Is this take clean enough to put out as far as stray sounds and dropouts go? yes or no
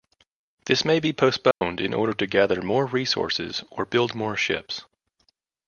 no